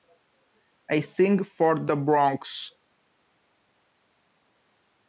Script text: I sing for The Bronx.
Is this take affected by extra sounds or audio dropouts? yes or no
no